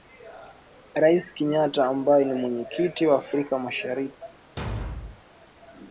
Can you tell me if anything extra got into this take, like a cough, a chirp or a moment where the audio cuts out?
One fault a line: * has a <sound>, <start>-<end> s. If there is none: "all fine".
* has a thud, 4.6-5.2 s